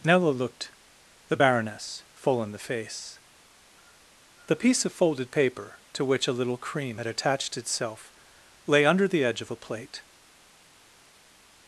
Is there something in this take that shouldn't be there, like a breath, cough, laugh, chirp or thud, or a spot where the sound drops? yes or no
no